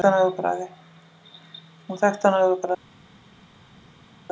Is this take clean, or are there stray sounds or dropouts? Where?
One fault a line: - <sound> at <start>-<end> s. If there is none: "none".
none